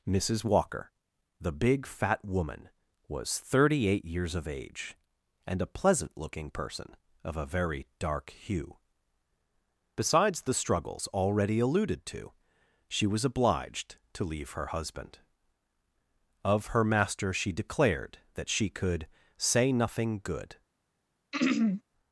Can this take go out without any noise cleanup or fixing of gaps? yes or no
no